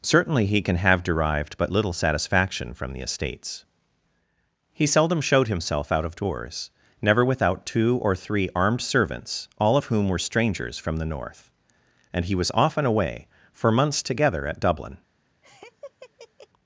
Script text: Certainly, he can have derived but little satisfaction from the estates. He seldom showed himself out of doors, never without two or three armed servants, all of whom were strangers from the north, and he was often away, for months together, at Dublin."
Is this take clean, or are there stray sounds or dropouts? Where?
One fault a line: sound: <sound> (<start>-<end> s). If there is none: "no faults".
sound: laugh (15.4-16.5 s)